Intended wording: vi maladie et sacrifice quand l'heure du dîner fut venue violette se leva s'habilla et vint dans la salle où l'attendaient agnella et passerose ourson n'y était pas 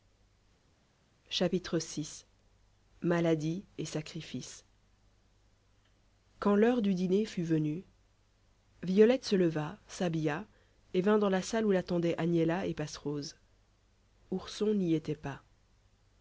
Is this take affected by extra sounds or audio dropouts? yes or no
no